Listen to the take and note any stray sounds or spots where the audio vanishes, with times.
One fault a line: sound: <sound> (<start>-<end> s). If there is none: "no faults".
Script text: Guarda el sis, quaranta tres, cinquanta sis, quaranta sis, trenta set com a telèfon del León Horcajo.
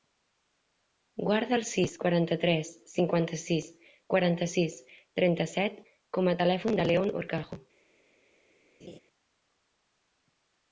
sound: laugh (8.8-9.0 s)